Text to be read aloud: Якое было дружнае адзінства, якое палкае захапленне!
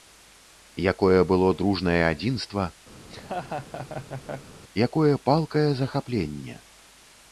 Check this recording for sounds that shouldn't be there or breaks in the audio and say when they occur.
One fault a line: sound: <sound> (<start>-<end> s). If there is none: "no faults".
sound: laugh (3.0-4.5 s)